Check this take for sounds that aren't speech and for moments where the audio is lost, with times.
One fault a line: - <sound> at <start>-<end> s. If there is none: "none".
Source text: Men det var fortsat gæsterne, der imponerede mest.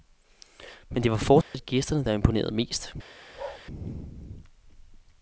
- dropout at 1.4-1.5 s
- bark at 3.3-3.6 s